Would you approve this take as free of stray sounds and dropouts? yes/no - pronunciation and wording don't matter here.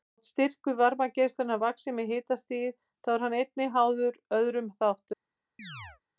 no